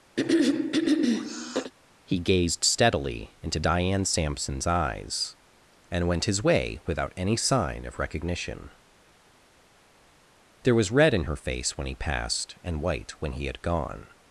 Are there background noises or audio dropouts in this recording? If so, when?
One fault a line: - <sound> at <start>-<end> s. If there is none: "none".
- throat clearing at 0.2-1.7 s